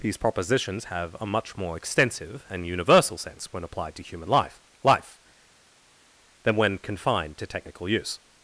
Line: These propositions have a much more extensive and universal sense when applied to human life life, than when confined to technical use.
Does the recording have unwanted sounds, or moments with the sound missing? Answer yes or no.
no